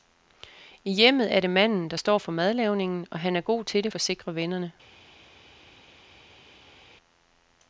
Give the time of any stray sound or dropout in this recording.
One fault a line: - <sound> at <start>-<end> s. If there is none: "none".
none